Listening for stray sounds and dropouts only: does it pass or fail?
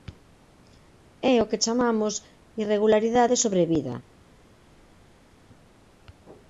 pass